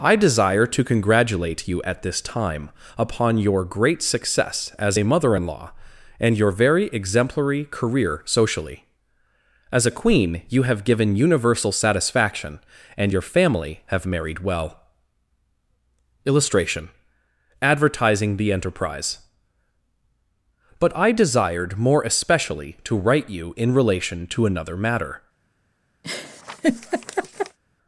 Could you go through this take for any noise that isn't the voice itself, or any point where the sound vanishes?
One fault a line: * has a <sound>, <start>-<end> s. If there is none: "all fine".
* has a laugh, 26.0-27.6 s